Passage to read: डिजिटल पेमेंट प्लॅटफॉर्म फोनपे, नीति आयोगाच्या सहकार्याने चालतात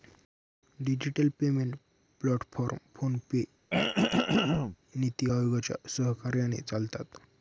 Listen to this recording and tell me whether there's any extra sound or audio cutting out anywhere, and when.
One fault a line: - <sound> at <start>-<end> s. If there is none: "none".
- throat clearing at 3.7-4.8 s